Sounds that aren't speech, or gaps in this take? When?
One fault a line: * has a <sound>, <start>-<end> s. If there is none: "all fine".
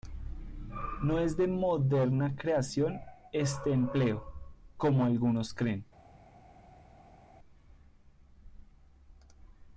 all fine